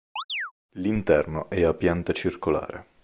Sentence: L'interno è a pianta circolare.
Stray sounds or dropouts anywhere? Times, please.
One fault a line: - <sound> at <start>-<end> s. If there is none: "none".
- chirp at 0.2-0.5 s